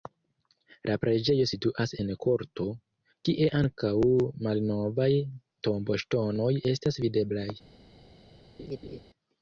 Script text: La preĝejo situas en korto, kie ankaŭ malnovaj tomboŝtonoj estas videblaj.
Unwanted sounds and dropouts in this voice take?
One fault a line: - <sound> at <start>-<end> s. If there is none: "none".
- laugh at 8.6-9.0 s